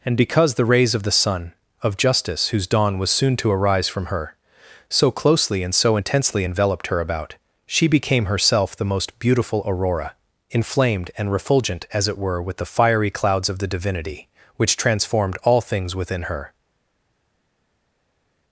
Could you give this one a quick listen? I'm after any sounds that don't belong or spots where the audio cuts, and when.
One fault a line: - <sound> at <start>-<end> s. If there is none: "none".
none